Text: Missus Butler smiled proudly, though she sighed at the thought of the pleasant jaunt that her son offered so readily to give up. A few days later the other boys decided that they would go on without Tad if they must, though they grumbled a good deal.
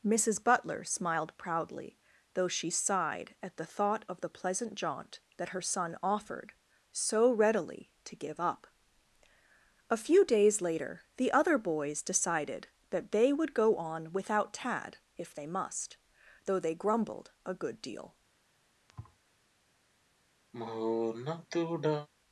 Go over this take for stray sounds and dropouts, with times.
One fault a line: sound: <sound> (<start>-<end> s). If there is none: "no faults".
sound: thud (18.9-19.2 s)
sound: sigh (20.5-22.1 s)